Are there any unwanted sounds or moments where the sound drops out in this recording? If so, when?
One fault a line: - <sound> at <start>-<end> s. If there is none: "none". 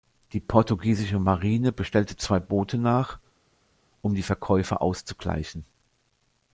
none